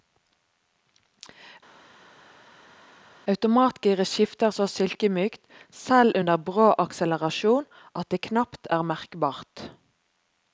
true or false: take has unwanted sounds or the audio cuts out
false